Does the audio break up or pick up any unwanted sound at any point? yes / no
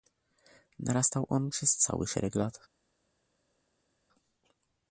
no